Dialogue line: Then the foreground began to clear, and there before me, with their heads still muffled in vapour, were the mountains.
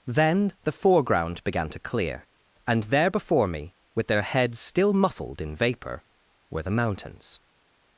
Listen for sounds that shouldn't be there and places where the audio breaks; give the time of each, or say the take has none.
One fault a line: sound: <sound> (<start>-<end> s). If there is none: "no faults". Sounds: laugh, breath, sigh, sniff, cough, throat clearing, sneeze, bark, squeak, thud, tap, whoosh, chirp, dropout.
no faults